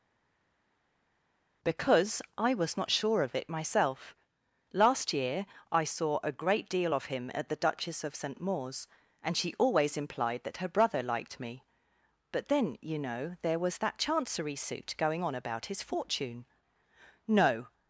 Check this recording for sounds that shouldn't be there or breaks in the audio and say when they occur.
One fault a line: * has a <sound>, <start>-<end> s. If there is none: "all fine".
all fine